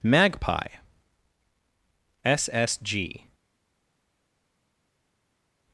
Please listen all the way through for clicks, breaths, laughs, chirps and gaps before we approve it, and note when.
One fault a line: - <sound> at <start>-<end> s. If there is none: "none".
none